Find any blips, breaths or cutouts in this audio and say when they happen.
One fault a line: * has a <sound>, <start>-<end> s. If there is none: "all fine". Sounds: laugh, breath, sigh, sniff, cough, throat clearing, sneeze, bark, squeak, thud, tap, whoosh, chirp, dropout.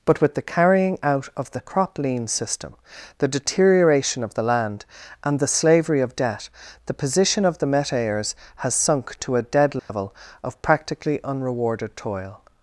* has a dropout, 9.8-9.9 s